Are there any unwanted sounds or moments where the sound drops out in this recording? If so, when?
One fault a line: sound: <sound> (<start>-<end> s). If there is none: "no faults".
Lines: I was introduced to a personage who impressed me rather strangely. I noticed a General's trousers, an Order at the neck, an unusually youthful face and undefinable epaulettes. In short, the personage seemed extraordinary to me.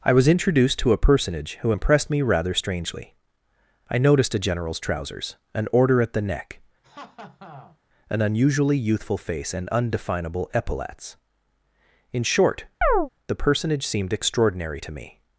sound: laugh (6.8-7.8 s)
sound: chirp (12.8-13.1 s)